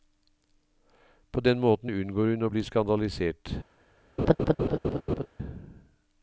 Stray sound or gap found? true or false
true